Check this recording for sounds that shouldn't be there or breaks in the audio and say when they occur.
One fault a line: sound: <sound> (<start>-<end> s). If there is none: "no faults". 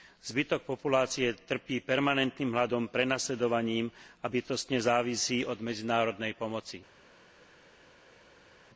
no faults